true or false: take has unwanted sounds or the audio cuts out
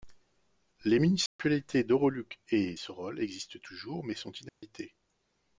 true